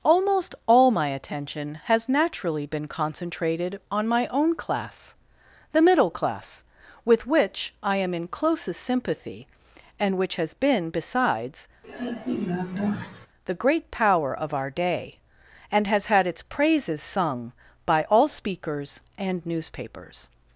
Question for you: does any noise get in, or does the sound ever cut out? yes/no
yes